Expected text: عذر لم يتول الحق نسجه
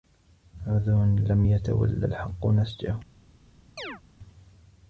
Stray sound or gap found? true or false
true